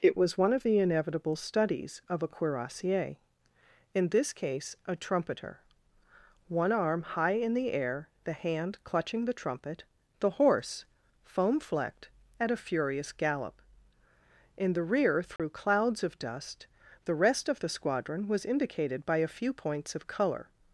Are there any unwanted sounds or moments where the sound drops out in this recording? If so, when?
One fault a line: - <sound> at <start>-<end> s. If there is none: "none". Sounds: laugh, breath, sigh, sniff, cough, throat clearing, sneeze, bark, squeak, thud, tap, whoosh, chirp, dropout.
- dropout at 15.4-15.4 s